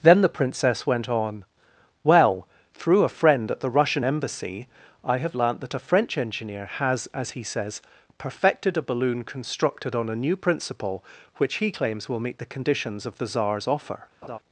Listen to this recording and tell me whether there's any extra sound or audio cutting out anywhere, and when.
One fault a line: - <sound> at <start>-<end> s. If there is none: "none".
- laugh at 14.2-14.4 s